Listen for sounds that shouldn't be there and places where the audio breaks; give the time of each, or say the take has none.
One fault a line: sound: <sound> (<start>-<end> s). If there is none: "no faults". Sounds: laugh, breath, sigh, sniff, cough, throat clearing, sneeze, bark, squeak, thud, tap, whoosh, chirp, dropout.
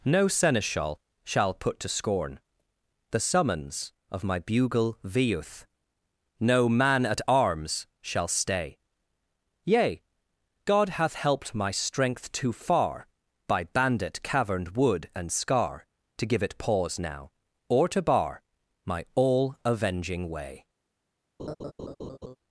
sound: laugh (21.4-22.4 s)